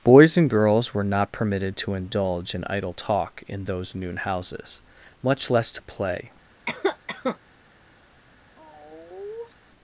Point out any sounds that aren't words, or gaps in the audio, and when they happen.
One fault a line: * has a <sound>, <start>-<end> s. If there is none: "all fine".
* has a cough, 6.7-7.4 s
* has a sigh, 8.6-9.5 s